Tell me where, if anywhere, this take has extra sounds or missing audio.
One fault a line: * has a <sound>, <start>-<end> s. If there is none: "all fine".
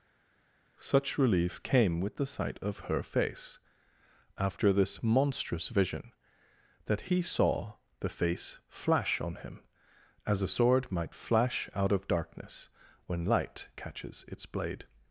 all fine